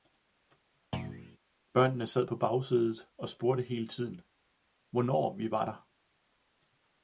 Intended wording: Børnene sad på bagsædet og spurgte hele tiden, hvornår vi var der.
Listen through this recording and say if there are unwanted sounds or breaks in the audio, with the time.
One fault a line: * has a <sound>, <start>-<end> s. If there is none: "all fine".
* has a thud, 0.9-1.4 s